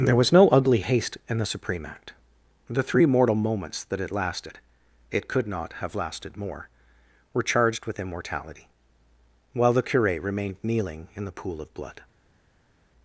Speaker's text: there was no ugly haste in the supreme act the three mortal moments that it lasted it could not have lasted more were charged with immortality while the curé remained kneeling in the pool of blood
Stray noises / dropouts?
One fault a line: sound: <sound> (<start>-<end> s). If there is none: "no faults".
no faults